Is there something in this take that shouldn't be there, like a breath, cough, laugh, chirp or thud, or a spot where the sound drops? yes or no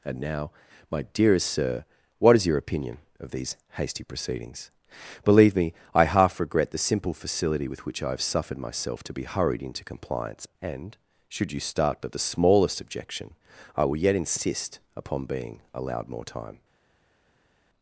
no